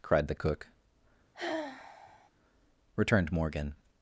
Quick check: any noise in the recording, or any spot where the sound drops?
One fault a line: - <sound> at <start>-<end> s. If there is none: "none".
- sigh at 1.3-2.3 s